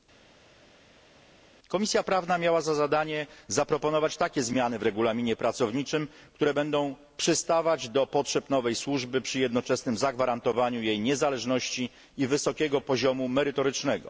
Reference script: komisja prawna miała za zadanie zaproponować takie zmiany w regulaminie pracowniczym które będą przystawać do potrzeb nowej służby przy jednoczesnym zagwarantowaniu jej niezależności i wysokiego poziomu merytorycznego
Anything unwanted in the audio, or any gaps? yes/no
no